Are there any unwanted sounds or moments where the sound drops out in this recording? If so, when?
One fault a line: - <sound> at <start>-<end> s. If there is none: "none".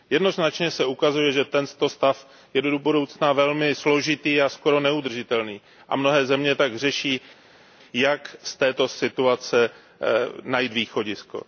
none